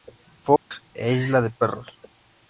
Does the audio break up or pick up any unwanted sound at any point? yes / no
yes